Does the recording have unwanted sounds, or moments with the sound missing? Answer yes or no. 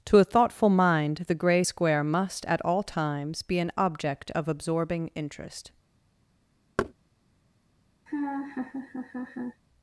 yes